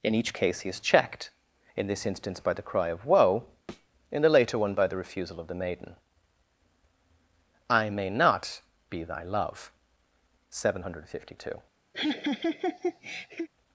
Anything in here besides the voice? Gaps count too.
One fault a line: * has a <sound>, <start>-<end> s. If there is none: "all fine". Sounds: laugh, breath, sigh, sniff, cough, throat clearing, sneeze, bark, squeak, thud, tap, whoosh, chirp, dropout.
* has a thud, 3.7-3.9 s
* has a laugh, 11.9-13.5 s